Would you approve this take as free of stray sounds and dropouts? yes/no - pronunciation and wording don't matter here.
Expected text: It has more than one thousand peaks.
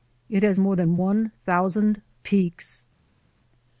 yes